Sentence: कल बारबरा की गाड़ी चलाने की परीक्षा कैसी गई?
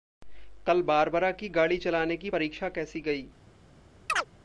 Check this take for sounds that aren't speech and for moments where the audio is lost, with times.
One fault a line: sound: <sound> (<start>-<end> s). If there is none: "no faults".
sound: chirp (4.1-4.3 s)